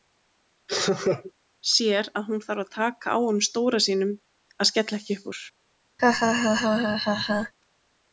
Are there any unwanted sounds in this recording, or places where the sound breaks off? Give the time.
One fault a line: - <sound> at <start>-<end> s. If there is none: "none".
- laugh at 0.7-1.3 s
- laugh at 6.0-7.5 s